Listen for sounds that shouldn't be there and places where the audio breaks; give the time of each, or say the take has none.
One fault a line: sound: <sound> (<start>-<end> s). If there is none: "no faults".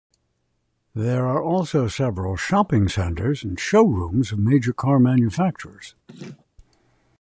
sound: laugh (6.1-6.5 s)